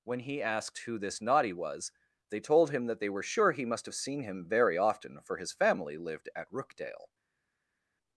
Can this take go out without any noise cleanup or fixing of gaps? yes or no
yes